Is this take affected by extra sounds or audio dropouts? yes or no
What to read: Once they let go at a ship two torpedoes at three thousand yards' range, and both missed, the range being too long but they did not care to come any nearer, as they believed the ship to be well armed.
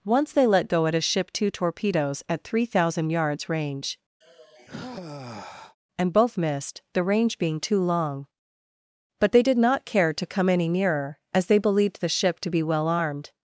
yes